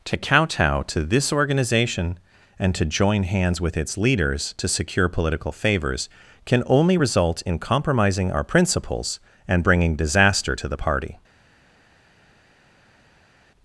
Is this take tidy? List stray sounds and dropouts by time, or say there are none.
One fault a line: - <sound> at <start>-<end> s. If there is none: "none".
none